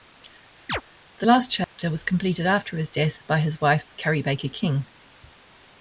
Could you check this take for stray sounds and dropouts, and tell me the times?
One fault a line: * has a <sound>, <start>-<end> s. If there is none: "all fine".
* has a chirp, 0.7-0.8 s
* has a dropout, 1.6-1.8 s